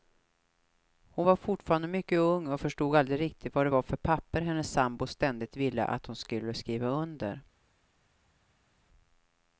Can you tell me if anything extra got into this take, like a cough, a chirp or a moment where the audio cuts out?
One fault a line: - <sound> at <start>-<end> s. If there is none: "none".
none